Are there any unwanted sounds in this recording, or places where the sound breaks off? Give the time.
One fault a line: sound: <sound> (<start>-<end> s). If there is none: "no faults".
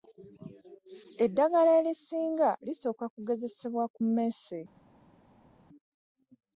no faults